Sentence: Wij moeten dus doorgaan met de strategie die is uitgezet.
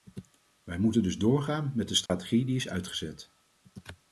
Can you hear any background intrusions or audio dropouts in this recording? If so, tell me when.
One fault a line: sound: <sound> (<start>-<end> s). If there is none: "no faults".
sound: dropout (2.1-2.1 s)